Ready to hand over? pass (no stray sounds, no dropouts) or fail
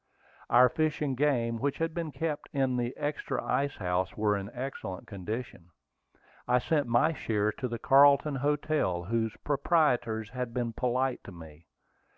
pass